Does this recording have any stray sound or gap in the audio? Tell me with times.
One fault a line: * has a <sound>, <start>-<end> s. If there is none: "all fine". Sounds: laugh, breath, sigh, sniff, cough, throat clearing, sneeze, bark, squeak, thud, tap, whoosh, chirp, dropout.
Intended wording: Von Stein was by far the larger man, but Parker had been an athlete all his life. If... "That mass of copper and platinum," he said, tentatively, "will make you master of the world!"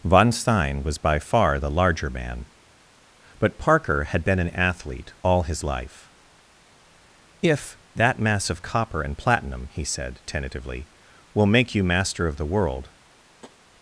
* has a tap, 13.4-13.6 s